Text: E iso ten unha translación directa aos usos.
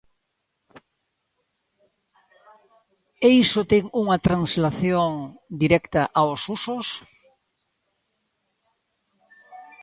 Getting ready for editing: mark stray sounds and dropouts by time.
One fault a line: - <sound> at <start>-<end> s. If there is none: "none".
none